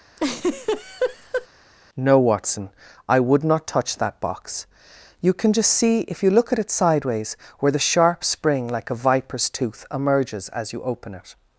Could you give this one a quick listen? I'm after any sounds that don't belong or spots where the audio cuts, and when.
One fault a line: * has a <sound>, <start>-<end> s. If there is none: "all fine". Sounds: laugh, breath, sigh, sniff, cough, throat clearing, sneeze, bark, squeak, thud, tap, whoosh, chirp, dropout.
* has a laugh, 0.2-1.5 s